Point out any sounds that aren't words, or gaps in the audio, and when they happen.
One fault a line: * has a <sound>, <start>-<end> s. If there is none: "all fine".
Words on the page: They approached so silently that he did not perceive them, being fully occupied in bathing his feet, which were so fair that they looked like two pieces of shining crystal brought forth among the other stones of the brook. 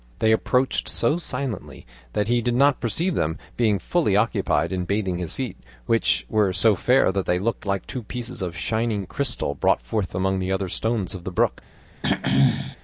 * has a throat clearing, 12.0-12.8 s